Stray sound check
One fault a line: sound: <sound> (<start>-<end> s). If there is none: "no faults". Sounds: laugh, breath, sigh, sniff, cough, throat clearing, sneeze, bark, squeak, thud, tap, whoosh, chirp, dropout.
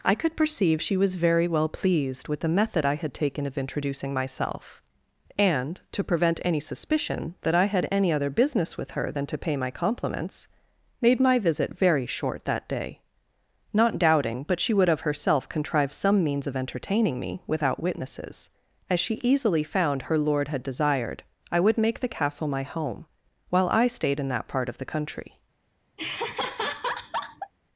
sound: laugh (26.0-27.5 s)